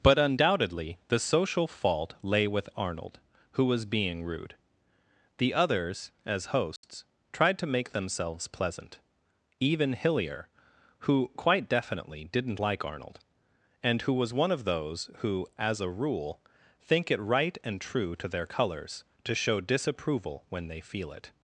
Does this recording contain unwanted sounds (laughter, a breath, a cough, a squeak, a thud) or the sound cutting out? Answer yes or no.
yes